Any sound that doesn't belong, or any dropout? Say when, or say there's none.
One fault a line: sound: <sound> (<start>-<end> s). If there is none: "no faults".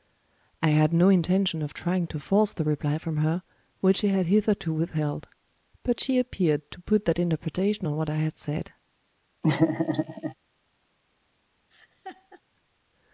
sound: laugh (9.4-10.3 s)
sound: laugh (11.7-12.4 s)